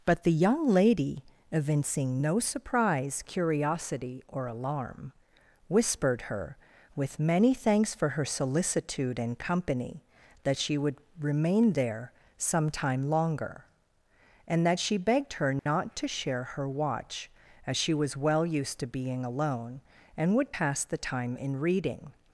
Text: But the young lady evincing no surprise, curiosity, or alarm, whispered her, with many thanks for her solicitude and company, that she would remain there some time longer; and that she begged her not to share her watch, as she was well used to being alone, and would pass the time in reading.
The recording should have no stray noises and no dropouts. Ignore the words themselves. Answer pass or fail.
fail